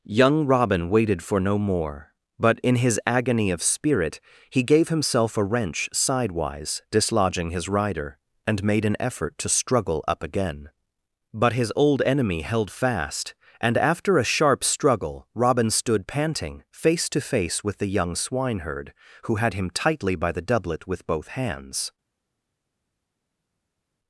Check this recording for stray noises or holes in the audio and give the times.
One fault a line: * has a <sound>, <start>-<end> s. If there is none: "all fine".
all fine